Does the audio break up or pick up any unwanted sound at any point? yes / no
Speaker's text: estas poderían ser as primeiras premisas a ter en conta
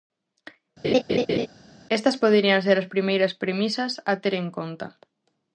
yes